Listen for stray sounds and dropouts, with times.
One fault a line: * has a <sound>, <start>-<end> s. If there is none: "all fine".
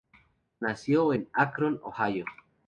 all fine